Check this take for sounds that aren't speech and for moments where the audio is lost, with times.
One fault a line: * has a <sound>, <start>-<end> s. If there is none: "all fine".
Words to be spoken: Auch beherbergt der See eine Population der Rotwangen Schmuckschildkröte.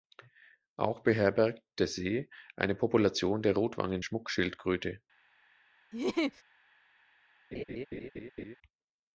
* has a laugh, 5.9-6.4 s
* has a laugh, 7.5-8.6 s